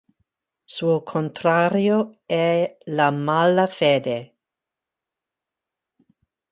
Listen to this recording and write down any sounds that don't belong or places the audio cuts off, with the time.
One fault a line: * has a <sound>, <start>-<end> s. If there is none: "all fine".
all fine